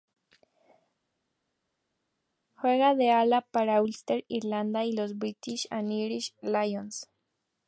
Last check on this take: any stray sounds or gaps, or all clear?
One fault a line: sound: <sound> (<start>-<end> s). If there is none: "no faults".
no faults